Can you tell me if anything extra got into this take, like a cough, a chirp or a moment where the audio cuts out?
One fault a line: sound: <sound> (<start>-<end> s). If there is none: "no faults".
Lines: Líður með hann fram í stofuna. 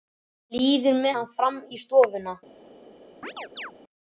sound: chirp (3.2-3.7 s)